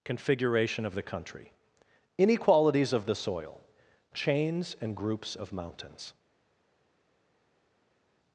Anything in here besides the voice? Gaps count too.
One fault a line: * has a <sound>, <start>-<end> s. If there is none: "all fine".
all fine